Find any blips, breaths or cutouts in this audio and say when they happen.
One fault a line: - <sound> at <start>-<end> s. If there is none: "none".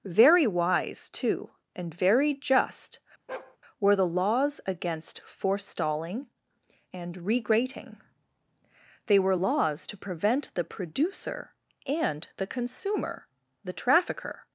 - bark at 3.3-3.6 s